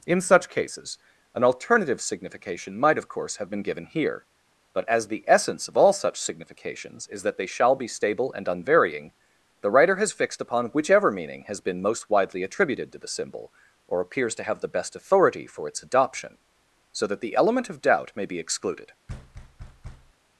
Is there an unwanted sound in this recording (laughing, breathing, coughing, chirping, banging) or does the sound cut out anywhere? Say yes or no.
yes